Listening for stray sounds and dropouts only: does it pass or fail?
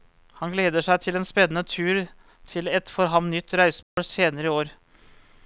fail